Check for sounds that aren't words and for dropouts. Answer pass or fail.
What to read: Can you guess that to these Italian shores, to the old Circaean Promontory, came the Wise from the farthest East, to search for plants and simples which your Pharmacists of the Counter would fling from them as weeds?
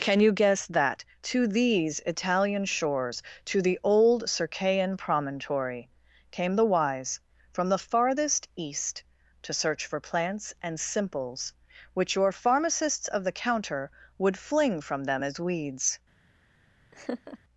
fail